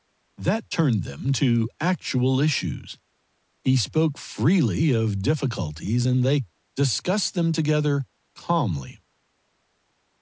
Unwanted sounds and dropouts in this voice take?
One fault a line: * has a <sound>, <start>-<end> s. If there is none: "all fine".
all fine